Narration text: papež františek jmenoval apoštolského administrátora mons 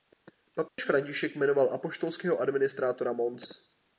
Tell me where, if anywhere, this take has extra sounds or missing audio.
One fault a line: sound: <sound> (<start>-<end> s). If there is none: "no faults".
sound: dropout (0.7-0.8 s)